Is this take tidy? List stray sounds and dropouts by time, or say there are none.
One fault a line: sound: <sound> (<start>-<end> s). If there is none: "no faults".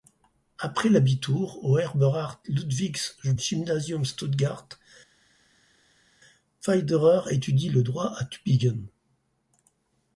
no faults